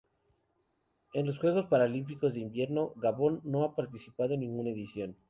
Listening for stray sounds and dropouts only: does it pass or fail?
pass